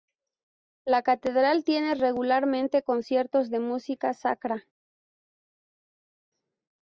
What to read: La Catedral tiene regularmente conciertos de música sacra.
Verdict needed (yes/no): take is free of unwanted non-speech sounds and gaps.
yes